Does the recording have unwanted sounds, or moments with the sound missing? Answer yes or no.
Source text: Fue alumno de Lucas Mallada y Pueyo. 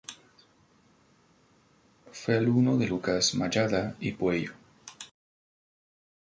no